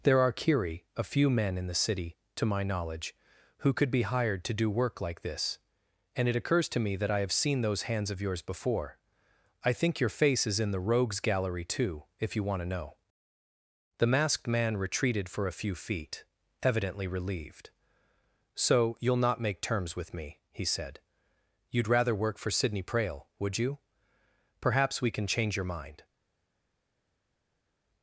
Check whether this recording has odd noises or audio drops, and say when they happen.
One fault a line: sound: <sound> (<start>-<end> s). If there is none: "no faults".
no faults